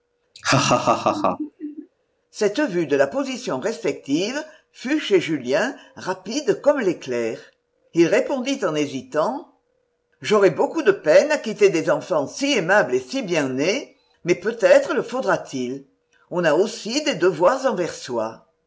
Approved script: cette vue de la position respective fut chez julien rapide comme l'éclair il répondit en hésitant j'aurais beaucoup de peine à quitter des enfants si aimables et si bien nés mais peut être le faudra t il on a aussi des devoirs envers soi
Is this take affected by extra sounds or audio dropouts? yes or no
yes